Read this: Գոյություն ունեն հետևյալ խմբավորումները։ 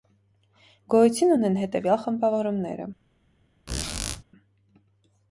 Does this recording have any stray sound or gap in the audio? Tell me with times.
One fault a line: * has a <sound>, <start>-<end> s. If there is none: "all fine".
* has a squeak, 3.7-4.2 s